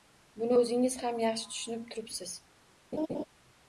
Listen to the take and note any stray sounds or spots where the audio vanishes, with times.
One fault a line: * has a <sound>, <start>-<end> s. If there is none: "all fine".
* has a laugh, 2.9-3.2 s